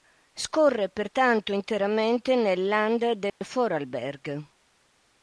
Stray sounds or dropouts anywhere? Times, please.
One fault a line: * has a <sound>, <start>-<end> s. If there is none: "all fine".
* has a dropout, 3.3-3.4 s